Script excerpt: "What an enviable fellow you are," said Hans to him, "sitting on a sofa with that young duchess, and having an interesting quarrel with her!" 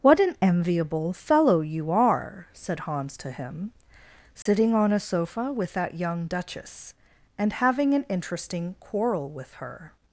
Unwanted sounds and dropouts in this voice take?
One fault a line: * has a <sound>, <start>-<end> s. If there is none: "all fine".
* has a dropout, 4.4-4.5 s